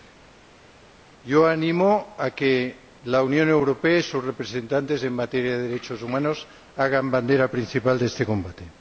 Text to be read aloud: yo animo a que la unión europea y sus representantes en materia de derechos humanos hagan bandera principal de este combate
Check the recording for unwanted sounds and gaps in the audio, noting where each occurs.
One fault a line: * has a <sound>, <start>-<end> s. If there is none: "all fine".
all fine